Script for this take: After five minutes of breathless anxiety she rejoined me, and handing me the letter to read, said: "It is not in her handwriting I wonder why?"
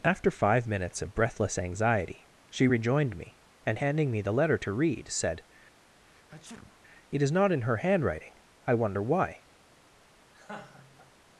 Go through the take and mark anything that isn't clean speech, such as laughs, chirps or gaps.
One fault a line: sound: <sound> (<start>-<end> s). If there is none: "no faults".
sound: sneeze (5.8-6.8 s)
sound: laugh (10.3-11.1 s)